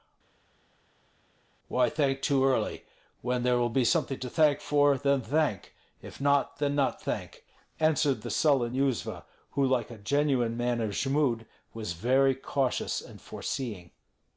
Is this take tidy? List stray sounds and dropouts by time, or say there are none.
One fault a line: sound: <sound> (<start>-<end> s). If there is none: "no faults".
no faults